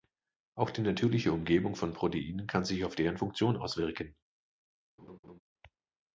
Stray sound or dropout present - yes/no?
yes